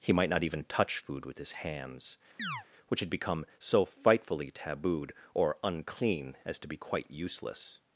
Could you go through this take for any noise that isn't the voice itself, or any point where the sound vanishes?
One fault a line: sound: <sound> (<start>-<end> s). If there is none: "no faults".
sound: chirp (2.4-2.7 s)